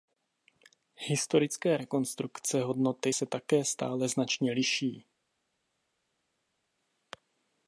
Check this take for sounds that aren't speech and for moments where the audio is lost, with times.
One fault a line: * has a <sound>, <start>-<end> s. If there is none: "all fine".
all fine